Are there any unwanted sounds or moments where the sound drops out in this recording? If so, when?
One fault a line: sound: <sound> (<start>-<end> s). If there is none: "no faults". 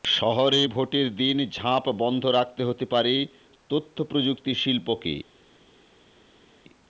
no faults